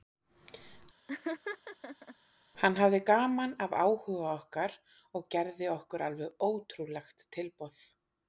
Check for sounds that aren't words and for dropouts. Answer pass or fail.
fail